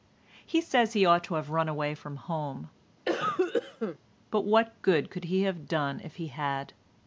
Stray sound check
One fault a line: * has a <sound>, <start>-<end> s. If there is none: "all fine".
* has a cough, 3.0-4.0 s